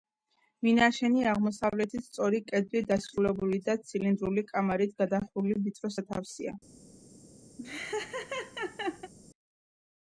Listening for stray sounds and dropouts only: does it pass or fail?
fail